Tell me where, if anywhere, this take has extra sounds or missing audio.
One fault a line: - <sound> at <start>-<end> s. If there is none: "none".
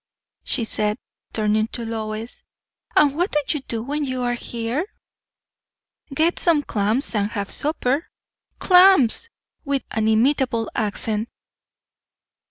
none